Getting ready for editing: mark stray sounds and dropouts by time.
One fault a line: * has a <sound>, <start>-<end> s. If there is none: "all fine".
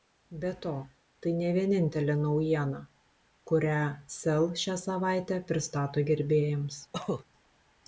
* has a cough, 6.9-7.2 s